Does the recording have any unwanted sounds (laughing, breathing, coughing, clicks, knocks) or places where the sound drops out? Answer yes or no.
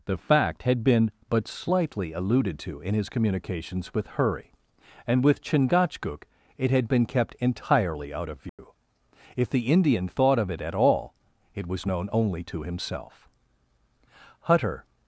yes